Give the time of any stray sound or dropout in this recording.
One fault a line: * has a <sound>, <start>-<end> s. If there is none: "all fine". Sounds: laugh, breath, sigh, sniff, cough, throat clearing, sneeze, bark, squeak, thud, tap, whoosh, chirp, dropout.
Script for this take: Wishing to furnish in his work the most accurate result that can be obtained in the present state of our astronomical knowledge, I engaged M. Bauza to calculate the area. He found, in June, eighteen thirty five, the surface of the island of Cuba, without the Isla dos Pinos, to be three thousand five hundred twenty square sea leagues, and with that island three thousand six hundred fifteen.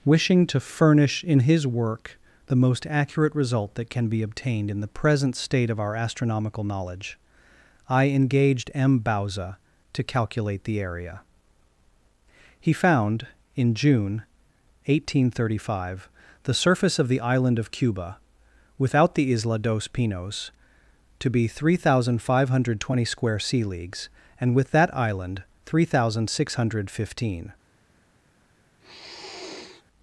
* has a sniff, 28.8-29.8 s